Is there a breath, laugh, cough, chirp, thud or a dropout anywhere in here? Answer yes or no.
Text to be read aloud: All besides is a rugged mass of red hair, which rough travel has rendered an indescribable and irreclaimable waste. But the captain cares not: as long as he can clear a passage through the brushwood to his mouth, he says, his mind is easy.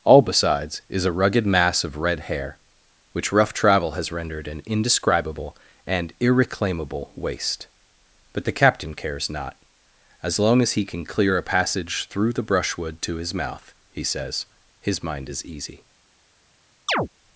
yes